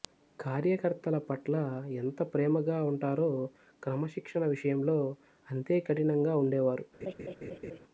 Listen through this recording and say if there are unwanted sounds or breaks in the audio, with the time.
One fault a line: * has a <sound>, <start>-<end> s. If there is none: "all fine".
* has a laugh, 7.0-7.8 s